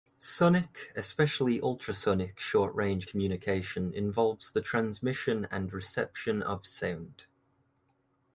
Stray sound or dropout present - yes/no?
no